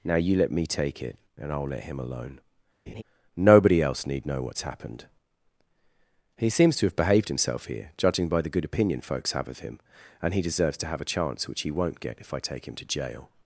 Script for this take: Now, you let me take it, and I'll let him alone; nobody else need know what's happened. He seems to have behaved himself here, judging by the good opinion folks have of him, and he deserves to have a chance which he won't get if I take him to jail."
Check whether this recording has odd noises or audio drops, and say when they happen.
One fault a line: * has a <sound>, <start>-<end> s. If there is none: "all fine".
* has a laugh, 2.9-3.0 s